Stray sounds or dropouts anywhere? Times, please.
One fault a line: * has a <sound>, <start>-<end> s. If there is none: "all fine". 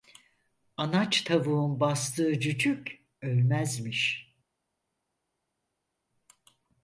all fine